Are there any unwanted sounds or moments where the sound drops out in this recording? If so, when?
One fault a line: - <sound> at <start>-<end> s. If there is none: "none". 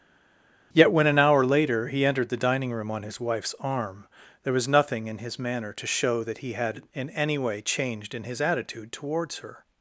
none